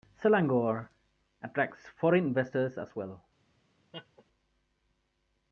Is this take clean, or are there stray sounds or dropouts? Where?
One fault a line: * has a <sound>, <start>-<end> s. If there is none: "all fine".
* has a laugh, 3.9-4.2 s